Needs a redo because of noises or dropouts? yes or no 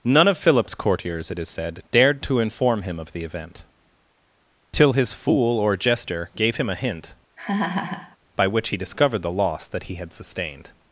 yes